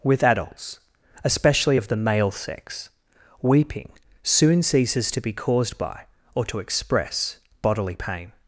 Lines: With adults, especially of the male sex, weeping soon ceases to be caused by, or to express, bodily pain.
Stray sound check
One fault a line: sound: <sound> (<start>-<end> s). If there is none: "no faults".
no faults